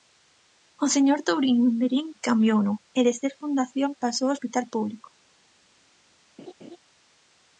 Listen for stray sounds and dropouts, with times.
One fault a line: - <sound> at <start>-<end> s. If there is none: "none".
- laugh at 6.4-6.8 s